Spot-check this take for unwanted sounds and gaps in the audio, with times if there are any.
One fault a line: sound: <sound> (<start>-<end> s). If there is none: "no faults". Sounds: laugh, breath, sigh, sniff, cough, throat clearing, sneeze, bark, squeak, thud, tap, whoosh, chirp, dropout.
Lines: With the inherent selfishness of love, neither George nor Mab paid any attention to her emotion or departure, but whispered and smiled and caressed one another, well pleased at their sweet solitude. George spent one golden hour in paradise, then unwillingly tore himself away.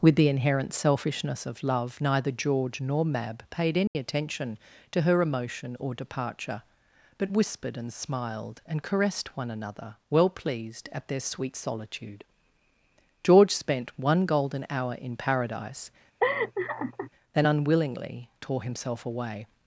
sound: dropout (3.9-4.0 s)
sound: laugh (16.2-17.1 s)